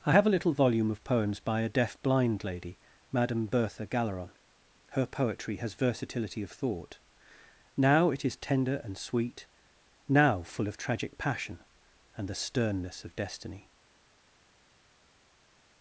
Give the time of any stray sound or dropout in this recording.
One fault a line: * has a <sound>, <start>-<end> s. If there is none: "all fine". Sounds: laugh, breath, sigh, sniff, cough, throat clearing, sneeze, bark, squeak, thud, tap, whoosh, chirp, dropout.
all fine